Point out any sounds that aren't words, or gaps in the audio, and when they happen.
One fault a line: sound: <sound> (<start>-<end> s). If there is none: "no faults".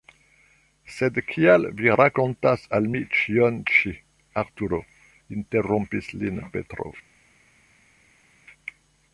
no faults